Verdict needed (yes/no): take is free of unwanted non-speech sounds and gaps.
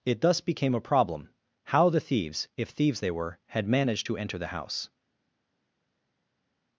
yes